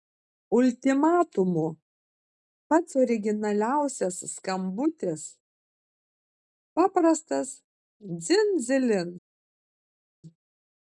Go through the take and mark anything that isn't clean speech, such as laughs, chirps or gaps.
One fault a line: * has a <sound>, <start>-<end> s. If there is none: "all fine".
all fine